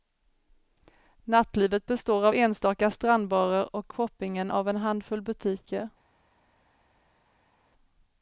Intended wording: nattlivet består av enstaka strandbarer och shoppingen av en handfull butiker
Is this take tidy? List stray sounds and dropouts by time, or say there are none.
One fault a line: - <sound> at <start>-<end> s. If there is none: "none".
none